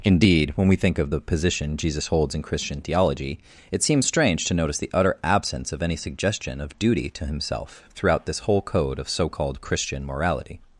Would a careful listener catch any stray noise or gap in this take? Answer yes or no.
no